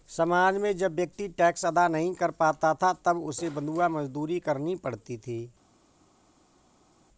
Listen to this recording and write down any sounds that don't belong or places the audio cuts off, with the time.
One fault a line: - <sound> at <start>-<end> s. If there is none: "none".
none